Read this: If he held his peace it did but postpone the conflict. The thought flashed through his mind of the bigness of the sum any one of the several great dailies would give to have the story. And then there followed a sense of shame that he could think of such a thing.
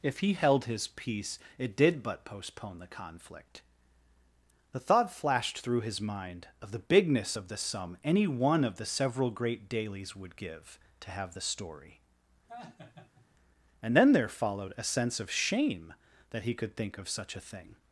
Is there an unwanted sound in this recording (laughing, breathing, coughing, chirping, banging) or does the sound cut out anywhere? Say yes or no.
yes